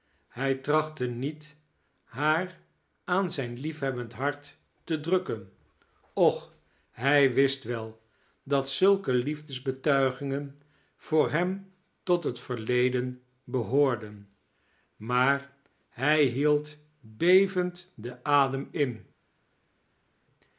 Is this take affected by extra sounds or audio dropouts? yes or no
no